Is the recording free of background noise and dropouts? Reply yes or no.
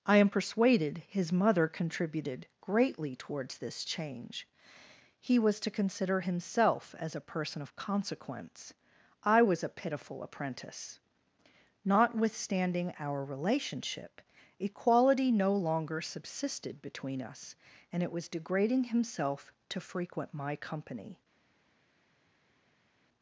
yes